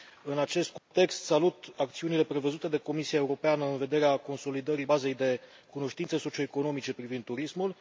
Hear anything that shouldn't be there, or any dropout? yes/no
yes